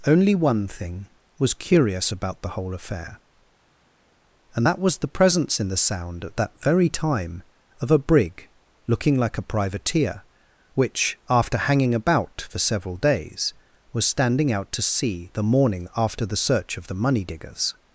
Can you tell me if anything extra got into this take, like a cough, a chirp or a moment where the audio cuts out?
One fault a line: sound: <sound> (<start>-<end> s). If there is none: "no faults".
no faults